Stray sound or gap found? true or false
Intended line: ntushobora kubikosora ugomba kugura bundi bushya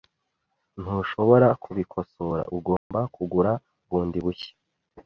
true